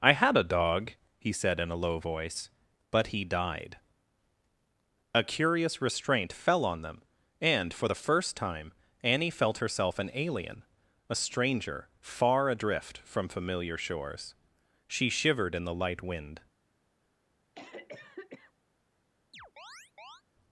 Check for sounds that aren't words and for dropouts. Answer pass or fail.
fail